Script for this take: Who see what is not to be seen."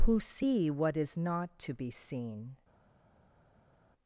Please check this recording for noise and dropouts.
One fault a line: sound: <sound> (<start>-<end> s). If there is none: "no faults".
no faults